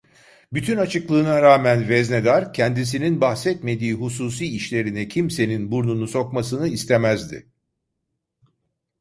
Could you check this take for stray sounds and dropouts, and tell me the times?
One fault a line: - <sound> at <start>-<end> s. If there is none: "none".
none